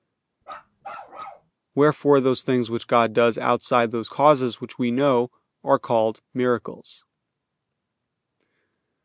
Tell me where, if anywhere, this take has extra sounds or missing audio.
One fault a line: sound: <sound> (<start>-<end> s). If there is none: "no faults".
sound: bark (0.4-1.5 s)